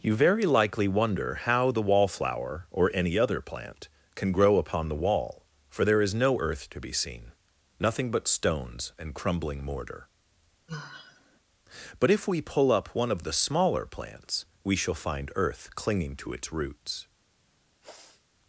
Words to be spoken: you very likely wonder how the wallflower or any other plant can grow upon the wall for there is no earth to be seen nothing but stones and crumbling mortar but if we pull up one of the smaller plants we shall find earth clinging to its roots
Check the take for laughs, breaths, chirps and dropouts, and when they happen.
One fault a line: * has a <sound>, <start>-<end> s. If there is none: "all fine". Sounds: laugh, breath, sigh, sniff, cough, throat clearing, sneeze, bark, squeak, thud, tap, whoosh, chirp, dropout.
* has a sigh, 10.7-11.4 s
* has a sniff, 17.8-18.3 s